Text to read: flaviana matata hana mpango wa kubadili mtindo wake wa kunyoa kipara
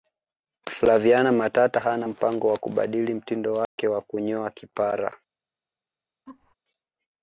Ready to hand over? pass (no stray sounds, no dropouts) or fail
fail